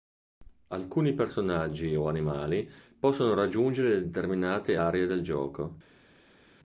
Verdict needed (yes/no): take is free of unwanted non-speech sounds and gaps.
yes